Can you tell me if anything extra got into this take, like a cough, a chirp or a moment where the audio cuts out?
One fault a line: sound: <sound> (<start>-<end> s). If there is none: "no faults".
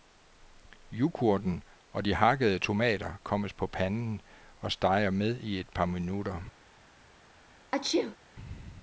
sound: sneeze (7.7-8.2 s)